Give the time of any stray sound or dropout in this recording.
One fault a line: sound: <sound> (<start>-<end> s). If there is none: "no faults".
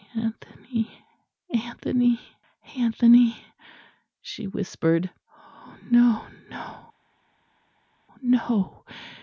no faults